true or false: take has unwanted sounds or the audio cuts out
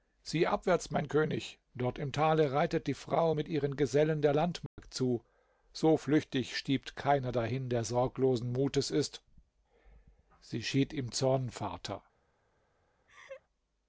true